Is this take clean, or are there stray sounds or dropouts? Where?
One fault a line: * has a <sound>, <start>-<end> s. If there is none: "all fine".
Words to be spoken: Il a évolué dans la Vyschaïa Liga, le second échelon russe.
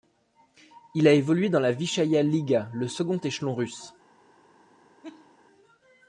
* has a laugh, 5.0-5.4 s